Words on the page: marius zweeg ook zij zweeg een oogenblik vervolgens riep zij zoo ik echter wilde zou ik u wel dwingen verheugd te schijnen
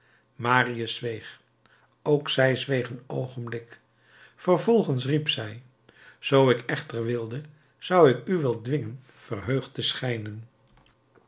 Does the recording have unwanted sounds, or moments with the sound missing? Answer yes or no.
no